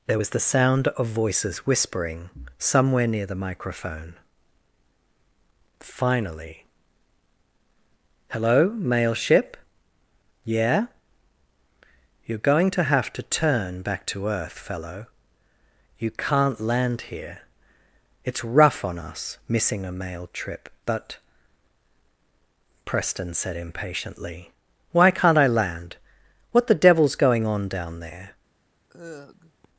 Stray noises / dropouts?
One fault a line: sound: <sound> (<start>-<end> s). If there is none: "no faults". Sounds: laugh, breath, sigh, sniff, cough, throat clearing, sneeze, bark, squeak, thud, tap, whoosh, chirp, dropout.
sound: sigh (28.9-29.7 s)